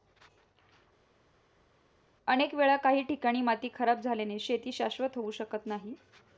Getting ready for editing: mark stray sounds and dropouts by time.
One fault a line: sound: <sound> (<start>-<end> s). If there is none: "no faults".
no faults